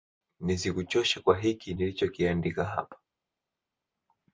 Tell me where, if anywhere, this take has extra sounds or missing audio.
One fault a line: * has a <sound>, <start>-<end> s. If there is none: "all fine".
all fine